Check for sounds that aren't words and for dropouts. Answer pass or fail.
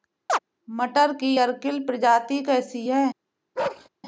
fail